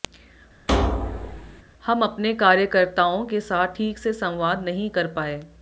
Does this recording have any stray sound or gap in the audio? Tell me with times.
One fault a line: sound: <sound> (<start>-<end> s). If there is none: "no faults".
sound: thud (0.7-1.6 s)